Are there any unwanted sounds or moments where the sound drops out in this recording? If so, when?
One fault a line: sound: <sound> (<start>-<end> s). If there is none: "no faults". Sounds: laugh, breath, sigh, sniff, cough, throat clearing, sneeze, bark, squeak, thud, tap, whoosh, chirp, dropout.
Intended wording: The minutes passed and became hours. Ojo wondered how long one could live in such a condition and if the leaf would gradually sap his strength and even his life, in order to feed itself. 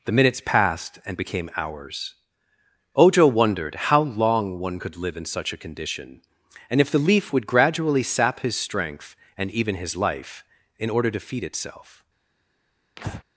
sound: breath (13.0-13.2 s)